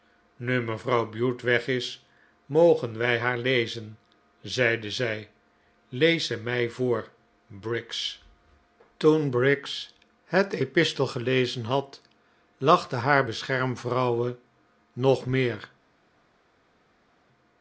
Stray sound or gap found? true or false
false